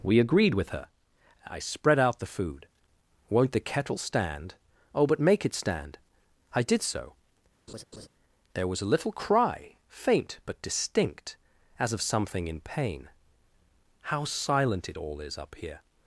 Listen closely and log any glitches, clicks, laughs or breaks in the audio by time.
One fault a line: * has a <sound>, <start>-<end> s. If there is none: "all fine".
* has a laugh, 7.7-8.1 s